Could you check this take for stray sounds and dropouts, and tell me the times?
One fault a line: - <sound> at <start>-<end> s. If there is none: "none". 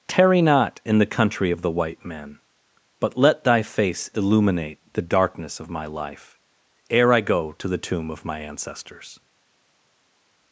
none